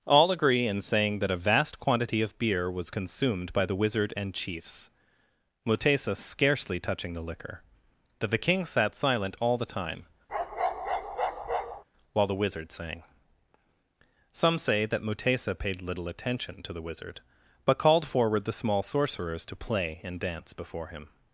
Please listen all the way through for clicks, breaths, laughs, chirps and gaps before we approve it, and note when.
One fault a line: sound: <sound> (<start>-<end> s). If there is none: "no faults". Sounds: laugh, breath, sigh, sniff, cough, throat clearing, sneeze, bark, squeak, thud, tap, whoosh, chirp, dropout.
sound: bark (10.3-11.8 s)